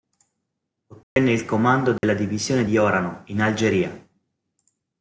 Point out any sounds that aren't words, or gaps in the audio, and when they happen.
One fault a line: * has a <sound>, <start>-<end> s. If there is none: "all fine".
* has a dropout, 1.0-1.2 s
* has a dropout, 2.0-2.0 s